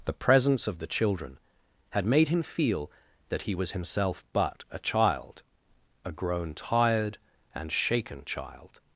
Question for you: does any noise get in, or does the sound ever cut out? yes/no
no